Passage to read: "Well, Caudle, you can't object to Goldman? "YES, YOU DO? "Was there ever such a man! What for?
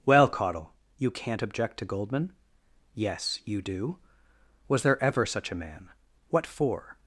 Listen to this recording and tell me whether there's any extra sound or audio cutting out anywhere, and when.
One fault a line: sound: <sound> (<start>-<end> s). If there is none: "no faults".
no faults